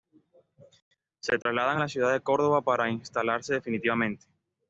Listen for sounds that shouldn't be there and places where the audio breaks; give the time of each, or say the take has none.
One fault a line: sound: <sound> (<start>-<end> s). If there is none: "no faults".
sound: dropout (1.4-1.5 s)